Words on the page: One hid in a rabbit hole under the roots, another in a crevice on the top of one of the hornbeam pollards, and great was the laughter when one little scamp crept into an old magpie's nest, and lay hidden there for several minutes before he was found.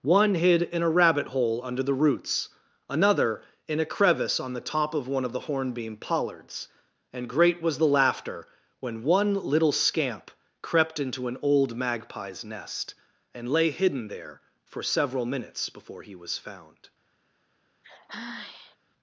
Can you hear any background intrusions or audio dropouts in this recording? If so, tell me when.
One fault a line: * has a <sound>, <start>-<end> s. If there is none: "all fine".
* has a sigh, 17.8-18.8 s